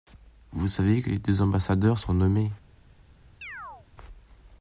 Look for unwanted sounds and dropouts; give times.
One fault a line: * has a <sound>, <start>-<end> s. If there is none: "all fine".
* has a chirp, 3.4-3.9 s